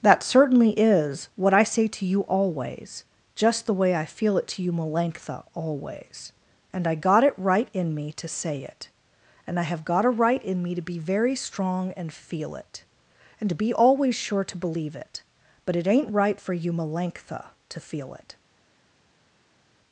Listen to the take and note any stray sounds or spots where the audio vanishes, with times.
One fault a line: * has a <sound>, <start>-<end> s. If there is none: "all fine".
all fine